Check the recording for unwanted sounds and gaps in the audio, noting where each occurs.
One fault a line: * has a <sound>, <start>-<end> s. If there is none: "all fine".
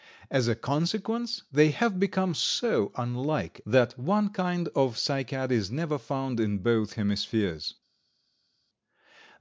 all fine